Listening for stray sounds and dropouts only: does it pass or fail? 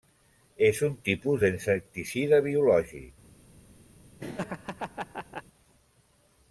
fail